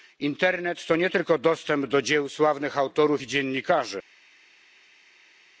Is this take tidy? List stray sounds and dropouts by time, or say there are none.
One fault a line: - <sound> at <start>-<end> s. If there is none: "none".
none